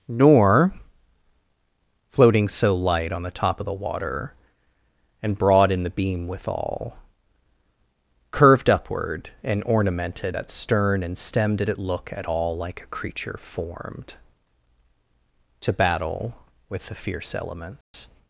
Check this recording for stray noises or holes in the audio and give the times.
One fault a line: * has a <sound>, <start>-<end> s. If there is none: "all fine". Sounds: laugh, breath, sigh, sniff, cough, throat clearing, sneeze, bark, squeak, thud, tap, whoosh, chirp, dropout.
* has a dropout, 17.8-17.9 s